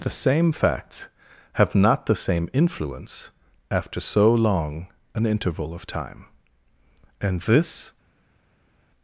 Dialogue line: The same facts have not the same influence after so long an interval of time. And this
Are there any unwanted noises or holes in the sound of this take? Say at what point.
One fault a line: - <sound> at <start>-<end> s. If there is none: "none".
none